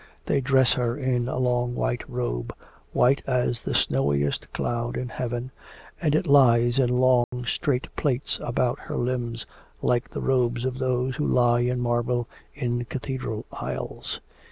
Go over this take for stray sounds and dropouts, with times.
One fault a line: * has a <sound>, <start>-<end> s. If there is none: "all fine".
* has a dropout, 7.2-7.3 s